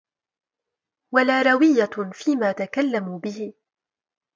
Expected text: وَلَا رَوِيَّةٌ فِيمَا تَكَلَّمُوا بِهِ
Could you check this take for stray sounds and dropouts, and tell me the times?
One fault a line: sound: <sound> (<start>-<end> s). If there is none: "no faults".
no faults